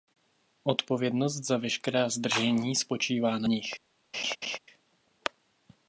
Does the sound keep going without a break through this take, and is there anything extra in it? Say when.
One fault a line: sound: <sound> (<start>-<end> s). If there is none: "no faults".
sound: laugh (4.1-4.6 s)